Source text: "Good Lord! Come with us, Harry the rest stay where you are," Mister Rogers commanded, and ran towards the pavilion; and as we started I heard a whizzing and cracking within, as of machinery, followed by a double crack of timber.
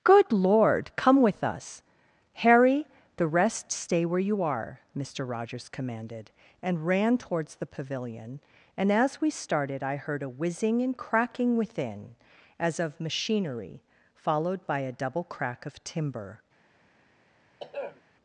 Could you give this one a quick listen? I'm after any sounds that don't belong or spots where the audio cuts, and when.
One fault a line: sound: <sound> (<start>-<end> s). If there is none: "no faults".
sound: throat clearing (17.6-18.0 s)